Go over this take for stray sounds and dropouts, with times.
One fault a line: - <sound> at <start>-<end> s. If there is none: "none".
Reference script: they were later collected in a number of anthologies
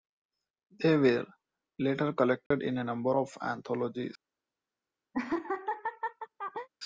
- dropout at 2.5-2.5 s
- laugh at 5.1-6.7 s